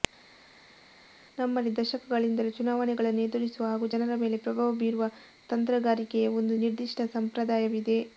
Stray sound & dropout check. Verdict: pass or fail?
pass